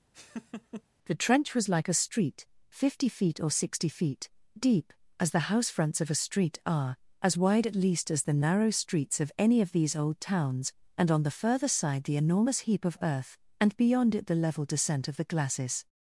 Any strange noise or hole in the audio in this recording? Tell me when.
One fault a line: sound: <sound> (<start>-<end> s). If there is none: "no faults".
sound: laugh (0.1-0.8 s)